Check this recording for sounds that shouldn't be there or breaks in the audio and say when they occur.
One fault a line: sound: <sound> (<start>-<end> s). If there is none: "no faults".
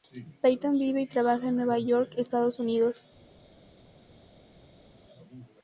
no faults